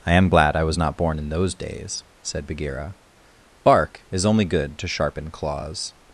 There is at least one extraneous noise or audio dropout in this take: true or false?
false